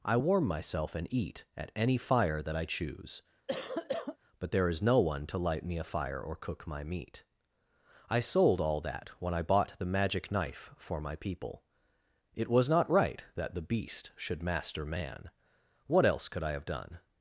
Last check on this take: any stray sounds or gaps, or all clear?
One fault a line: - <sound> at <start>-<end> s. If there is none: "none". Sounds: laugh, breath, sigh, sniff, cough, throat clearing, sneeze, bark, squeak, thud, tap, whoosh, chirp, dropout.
- cough at 3.5-4.2 s